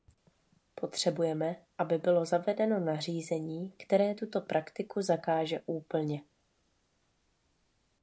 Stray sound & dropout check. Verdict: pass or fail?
pass